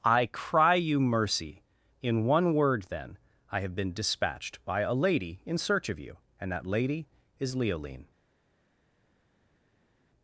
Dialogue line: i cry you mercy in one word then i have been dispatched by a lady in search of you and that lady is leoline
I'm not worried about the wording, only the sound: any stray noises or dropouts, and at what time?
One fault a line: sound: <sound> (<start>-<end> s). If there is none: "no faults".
no faults